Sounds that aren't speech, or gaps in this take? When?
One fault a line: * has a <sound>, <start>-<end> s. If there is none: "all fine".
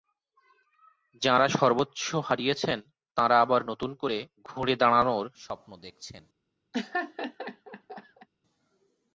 * has a laugh, 6.7-8.3 s